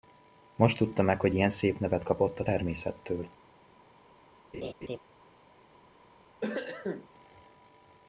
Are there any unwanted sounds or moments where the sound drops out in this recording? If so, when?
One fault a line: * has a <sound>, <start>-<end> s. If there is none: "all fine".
* has a laugh, 4.5-5.0 s
* has a cough, 6.4-7.1 s